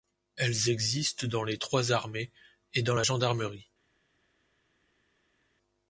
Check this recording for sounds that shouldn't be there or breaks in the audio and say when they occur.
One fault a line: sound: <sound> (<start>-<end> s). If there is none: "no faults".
no faults